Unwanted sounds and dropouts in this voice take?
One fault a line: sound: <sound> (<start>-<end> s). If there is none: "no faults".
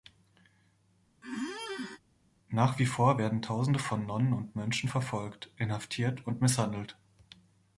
sound: squeak (1.2-2.0 s)